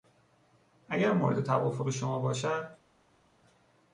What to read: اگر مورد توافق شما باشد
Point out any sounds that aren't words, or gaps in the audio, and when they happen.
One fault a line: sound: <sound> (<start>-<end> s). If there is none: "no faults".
no faults